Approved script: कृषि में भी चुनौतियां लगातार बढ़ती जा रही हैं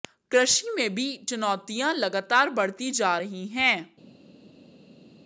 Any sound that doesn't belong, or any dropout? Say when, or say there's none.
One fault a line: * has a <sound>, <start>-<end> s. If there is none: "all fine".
all fine